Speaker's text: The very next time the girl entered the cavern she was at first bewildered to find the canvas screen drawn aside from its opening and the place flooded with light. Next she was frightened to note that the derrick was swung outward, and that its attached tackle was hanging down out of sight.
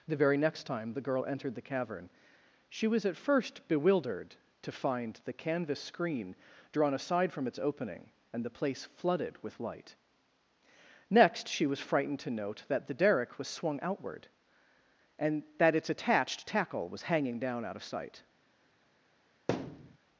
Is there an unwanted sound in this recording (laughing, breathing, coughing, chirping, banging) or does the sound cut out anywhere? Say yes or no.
yes